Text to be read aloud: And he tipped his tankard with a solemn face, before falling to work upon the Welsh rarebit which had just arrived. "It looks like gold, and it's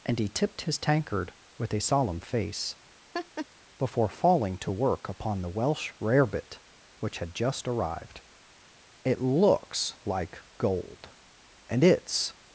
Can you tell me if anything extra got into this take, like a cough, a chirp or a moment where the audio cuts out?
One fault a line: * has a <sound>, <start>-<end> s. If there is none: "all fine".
* has a laugh, 3.1-3.5 s